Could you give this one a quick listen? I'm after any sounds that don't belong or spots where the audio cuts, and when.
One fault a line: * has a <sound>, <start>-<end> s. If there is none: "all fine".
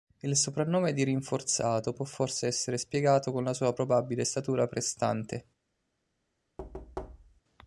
* has a thud, 6.6-7.4 s